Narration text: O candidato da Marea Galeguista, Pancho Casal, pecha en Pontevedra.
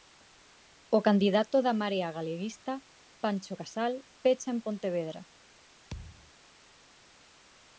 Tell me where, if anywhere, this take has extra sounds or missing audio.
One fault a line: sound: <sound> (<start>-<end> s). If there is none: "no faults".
sound: thud (5.9-6.3 s)